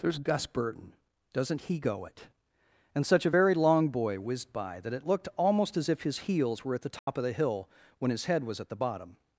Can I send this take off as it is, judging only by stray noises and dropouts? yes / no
no